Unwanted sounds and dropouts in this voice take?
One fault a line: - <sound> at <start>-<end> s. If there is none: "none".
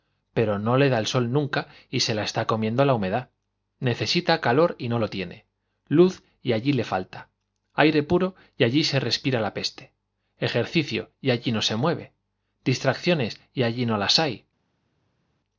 none